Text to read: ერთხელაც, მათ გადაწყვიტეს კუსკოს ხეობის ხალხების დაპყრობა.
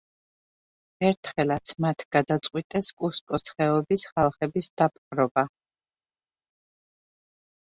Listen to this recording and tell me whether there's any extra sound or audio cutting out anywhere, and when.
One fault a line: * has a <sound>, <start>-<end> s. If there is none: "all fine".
all fine